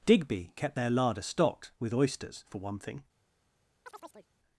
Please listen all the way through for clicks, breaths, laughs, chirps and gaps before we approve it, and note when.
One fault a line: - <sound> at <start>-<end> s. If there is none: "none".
- chirp at 3.9-4.3 s